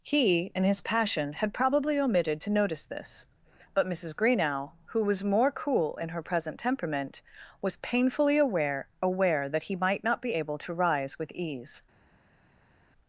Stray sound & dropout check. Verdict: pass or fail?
pass